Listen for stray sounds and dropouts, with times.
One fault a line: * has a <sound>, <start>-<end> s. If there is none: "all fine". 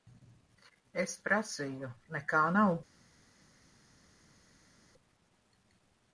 all fine